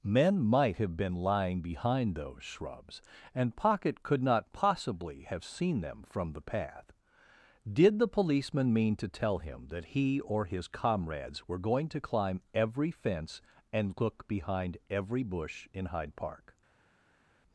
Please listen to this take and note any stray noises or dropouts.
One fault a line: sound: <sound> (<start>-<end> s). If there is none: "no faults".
no faults